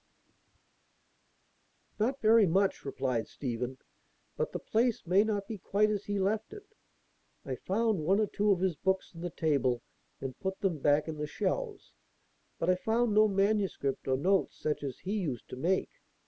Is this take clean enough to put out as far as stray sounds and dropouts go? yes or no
yes